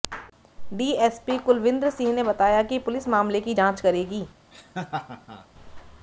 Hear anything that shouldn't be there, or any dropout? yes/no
yes